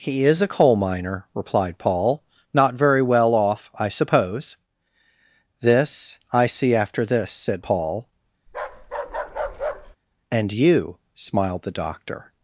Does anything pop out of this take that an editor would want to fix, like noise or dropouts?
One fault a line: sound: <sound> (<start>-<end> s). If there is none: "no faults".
sound: bark (8.5-10.0 s)